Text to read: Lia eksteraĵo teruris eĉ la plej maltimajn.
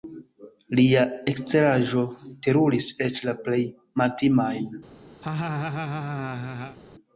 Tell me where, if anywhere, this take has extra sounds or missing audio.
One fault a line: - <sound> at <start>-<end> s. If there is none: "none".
- laugh at 5.2-6.8 s